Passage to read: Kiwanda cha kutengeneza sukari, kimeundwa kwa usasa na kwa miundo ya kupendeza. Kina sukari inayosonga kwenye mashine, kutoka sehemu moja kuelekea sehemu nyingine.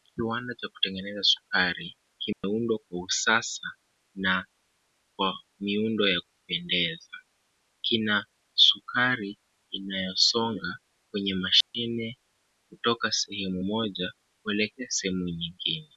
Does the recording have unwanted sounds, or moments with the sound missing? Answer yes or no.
yes